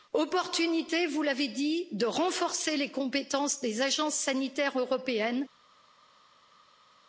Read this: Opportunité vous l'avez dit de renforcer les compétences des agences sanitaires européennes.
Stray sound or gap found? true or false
false